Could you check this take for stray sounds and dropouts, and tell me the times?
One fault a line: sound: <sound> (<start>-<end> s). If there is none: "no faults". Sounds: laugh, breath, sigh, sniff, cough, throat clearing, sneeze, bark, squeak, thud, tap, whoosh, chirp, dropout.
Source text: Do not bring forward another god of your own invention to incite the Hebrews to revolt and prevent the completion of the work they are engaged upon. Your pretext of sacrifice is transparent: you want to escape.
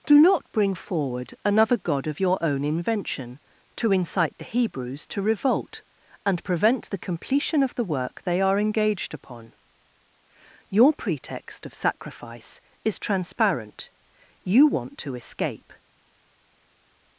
no faults